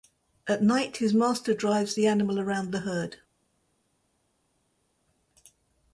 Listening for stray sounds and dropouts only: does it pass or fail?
pass